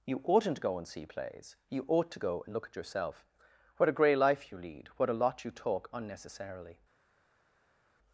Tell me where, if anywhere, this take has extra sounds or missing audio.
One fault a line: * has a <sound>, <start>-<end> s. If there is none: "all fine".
all fine